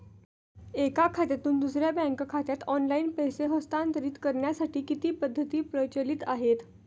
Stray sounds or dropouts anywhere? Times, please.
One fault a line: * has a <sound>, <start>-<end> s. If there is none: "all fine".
all fine